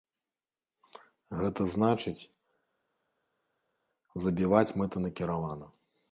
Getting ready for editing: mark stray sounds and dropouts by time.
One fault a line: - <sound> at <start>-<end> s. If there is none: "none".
none